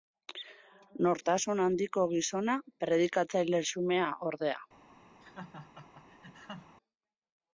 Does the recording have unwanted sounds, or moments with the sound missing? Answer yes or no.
yes